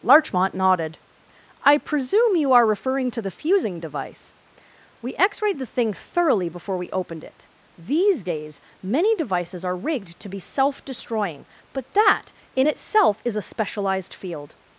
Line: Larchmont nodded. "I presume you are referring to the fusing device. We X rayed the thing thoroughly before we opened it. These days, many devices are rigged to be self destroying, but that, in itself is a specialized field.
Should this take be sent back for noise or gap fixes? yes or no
no